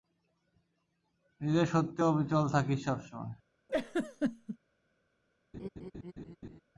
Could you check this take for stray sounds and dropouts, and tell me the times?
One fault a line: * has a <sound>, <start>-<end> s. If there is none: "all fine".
* has a laugh, 3.7-4.6 s
* has a laugh, 5.5-6.6 s